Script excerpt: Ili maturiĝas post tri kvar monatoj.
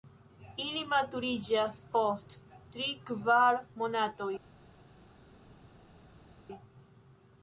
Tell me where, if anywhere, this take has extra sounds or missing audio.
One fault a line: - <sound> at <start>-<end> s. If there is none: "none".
none